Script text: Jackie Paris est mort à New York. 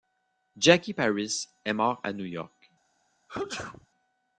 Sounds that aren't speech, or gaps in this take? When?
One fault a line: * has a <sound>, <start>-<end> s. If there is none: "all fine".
* has a sneeze, 3.3-3.9 s